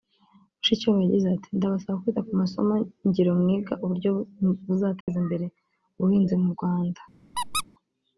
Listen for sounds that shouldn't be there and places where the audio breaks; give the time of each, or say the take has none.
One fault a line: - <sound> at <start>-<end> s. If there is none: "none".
- dropout at 5.0-5.1 s
- squeak at 7.3-7.6 s